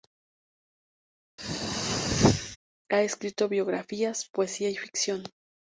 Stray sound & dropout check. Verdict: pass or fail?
fail